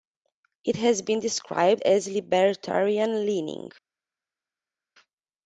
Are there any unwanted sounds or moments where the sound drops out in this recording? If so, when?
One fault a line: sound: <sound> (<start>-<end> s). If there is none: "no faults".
no faults